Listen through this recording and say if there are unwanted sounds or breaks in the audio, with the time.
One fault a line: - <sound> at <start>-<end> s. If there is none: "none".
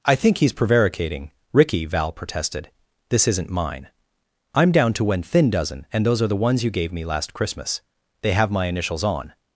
none